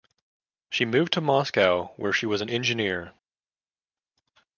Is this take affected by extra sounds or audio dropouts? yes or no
no